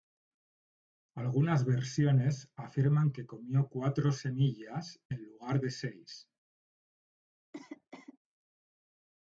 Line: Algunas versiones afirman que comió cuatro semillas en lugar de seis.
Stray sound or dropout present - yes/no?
yes